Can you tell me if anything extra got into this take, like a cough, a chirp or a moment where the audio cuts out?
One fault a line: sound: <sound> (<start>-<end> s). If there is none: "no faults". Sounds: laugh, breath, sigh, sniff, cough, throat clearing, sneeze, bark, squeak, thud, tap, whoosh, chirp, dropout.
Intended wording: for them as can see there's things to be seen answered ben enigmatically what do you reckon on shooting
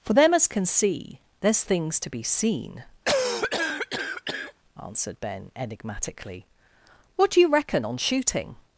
sound: cough (3.1-4.5 s)